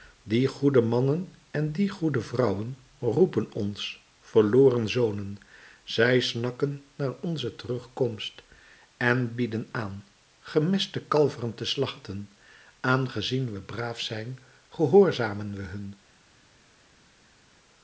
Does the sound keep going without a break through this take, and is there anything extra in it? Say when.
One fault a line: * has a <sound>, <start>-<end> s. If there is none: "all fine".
all fine